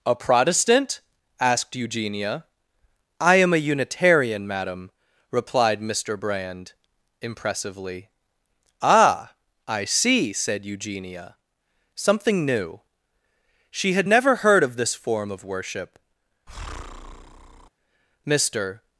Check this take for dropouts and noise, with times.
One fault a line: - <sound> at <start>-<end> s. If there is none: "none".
- breath at 16.5-17.7 s